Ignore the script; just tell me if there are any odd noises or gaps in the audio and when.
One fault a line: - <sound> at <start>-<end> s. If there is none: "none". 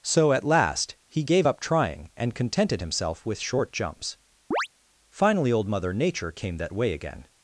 - chirp at 4.5-4.7 s